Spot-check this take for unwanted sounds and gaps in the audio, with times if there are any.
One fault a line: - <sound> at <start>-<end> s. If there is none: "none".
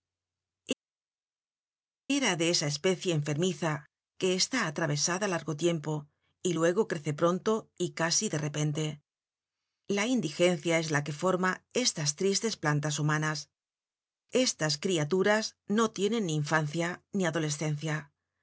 none